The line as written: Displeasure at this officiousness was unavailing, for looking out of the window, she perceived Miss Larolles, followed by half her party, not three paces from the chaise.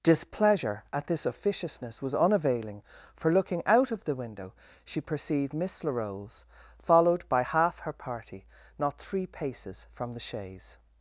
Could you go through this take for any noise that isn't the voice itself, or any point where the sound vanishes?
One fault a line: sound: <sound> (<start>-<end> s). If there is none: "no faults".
no faults